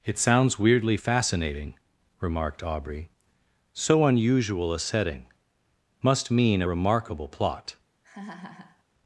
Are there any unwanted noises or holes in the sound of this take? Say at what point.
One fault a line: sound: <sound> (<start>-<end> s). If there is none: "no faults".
sound: laugh (8.0-8.8 s)